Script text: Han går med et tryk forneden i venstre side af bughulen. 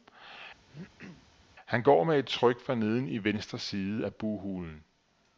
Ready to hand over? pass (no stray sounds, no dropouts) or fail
fail